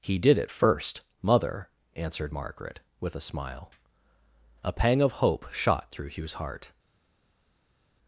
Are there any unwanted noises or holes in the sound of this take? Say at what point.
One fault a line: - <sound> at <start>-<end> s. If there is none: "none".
none